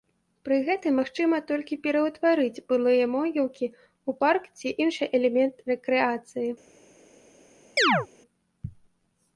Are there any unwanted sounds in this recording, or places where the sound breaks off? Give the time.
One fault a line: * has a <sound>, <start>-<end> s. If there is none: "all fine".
* has a chirp, 7.8-8.1 s